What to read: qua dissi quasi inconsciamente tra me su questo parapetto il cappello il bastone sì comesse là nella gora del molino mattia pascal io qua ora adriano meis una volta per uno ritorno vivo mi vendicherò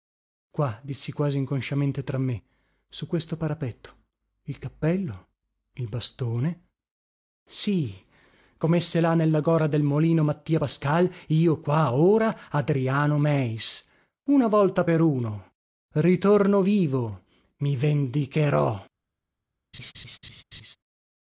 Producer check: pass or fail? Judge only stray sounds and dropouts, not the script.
fail